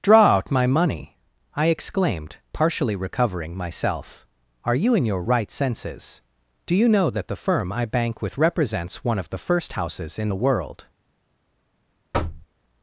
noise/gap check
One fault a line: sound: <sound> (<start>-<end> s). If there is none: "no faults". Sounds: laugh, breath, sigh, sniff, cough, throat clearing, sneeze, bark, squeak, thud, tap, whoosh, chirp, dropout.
sound: thud (12.1-12.5 s)